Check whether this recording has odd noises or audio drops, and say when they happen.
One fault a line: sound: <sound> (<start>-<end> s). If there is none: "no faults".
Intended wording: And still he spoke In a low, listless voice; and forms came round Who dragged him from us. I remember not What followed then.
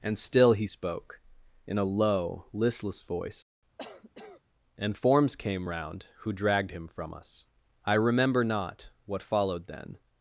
sound: cough (3.8-4.4 s)